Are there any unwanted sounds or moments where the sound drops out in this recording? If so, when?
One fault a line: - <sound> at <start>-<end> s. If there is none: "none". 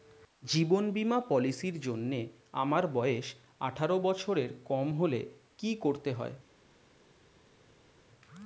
none